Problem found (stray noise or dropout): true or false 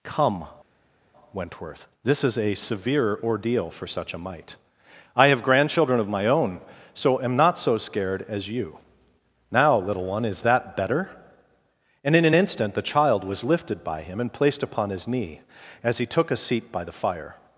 false